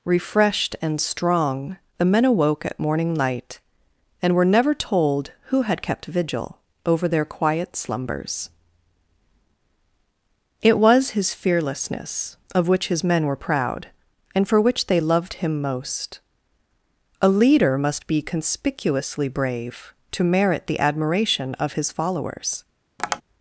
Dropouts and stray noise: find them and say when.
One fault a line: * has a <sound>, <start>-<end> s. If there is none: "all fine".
* has a tap, 23.0-23.2 s